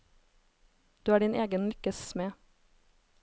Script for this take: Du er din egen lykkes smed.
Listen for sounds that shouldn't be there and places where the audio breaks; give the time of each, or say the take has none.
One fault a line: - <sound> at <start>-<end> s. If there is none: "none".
none